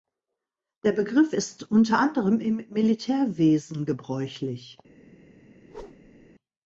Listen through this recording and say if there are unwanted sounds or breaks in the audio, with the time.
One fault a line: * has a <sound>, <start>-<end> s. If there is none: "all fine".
* has a whoosh, 5.6-6.3 s